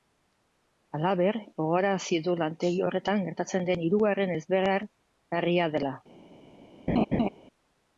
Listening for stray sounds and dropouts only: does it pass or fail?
fail